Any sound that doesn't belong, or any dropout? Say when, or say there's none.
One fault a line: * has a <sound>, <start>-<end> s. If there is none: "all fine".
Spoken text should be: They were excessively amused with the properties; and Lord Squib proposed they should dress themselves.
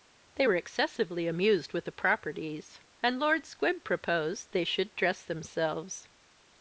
all fine